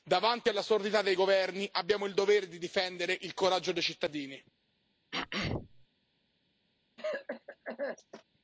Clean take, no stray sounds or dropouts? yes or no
no